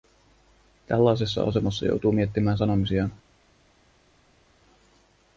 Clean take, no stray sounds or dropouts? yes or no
yes